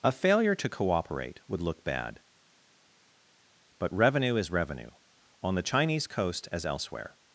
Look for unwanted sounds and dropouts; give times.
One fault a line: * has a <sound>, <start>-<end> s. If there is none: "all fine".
all fine